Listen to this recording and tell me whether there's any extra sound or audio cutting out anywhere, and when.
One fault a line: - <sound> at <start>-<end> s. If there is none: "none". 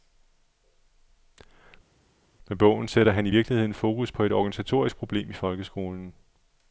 none